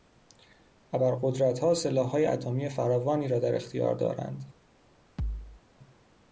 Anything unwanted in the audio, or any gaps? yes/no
yes